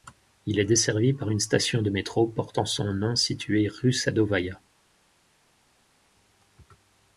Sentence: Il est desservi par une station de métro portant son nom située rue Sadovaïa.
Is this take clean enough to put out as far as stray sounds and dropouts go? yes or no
yes